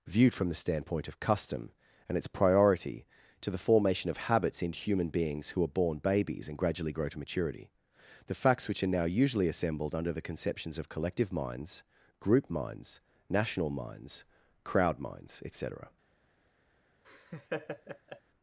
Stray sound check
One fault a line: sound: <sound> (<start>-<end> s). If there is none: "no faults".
sound: laugh (17.0-18.2 s)